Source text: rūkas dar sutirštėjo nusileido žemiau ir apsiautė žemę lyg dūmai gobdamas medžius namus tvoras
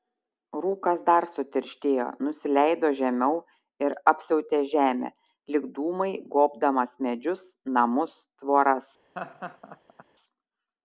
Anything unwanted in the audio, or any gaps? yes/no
yes